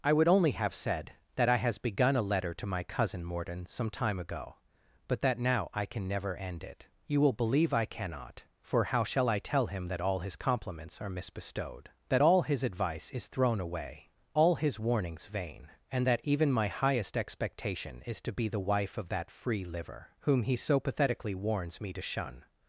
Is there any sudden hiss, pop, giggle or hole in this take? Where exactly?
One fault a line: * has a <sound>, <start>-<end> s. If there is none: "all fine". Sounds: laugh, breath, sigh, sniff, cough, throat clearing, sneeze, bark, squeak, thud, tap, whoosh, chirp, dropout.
all fine